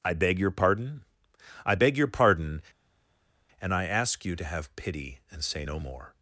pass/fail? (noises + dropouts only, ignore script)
pass